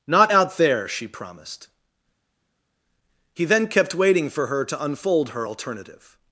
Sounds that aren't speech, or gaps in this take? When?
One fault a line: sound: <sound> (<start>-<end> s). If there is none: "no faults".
no faults